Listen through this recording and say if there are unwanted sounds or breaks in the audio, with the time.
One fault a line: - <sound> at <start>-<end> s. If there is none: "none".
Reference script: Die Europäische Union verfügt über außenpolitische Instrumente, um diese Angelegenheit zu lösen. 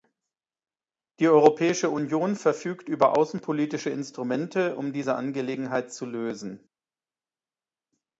none